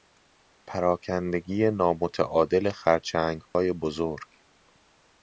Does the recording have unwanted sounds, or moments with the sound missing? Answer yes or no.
yes